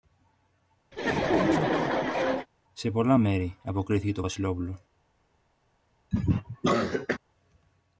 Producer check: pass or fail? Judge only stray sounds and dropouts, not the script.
fail